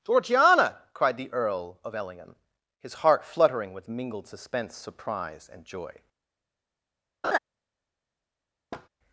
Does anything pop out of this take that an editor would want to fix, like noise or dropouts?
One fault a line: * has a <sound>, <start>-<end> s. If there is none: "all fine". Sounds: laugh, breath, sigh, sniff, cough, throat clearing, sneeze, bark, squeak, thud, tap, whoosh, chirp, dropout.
* has a laugh, 7.2-7.4 s
* has a thud, 8.7-8.9 s